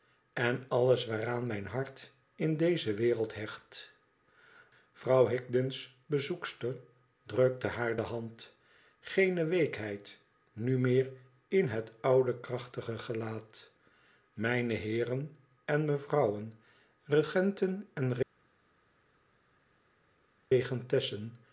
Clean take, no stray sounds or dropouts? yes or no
yes